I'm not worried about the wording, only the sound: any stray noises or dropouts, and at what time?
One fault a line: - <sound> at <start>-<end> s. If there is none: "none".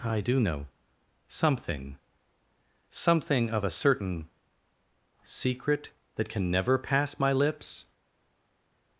none